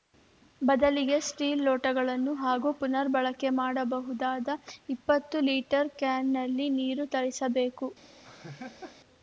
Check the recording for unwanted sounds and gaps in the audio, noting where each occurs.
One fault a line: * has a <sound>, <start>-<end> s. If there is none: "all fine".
* has a laugh, 8.2-9.0 s